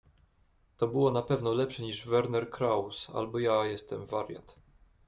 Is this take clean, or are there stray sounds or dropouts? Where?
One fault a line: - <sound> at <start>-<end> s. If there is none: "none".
none